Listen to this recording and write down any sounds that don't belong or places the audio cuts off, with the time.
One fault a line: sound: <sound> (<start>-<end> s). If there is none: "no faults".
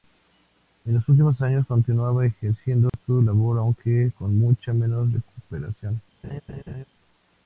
sound: dropout (2.9-2.9 s)
sound: laugh (6.2-6.8 s)